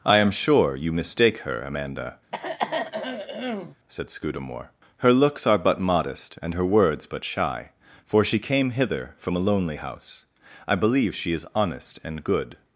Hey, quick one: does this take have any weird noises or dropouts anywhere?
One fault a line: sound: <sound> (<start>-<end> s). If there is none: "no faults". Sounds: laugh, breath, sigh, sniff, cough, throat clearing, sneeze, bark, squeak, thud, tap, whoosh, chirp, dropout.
sound: throat clearing (2.3-3.8 s)